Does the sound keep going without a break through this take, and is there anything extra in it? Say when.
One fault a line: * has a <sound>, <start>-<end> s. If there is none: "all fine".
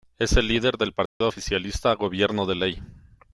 * has a dropout, 1.1-1.2 s